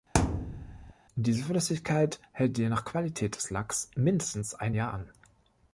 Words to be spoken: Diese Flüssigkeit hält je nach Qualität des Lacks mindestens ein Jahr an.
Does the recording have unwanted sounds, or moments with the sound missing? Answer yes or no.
yes